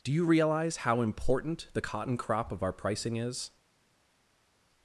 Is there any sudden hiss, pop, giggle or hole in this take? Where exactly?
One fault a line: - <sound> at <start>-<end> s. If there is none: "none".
none